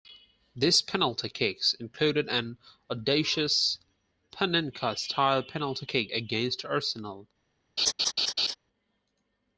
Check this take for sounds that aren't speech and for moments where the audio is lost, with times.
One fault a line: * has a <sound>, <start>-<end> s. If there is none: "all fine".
* has a laugh, 7.8-8.6 s